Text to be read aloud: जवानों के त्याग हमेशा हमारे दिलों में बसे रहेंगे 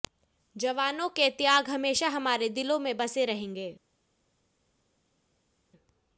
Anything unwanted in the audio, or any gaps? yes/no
no